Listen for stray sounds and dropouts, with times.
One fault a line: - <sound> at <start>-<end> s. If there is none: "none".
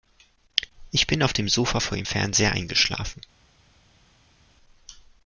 none